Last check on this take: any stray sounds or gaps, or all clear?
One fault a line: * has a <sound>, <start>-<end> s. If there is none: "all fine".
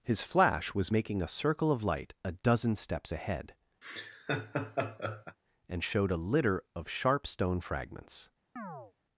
* has a laugh, 3.8-5.4 s
* has a chirp, 8.6-8.9 s